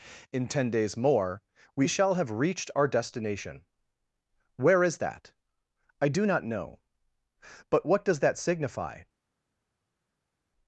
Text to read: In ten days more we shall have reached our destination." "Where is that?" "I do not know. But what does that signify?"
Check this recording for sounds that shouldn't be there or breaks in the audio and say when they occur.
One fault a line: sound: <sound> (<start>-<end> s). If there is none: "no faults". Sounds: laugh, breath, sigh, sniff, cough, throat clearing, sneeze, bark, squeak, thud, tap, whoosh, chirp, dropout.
no faults